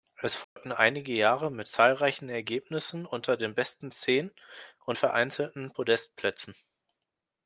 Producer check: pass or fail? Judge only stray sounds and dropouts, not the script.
fail